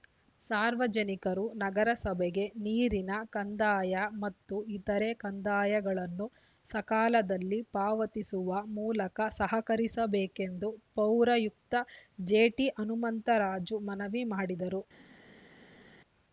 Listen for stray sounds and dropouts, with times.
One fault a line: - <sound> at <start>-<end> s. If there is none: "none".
none